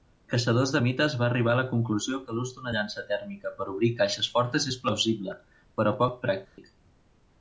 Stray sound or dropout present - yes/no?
yes